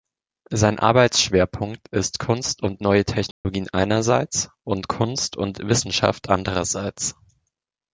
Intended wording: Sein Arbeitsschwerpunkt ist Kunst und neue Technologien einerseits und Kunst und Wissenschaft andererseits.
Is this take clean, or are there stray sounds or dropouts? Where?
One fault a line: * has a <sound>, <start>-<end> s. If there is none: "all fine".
* has a dropout, 3.3-3.4 s